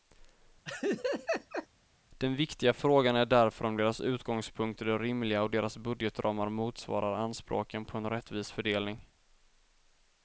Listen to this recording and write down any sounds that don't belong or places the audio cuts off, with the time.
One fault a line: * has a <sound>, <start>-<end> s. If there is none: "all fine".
* has a laugh, 0.7-1.7 s